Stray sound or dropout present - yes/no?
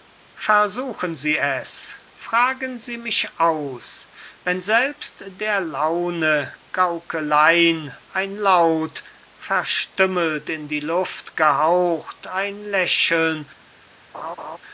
yes